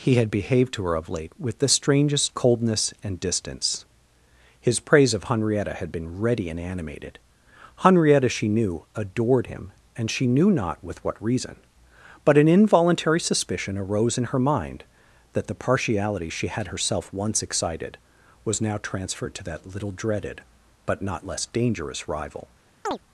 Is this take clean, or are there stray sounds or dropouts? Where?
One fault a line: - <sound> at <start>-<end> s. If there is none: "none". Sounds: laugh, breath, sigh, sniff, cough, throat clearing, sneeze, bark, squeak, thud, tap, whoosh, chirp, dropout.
- chirp at 22.9-23.0 s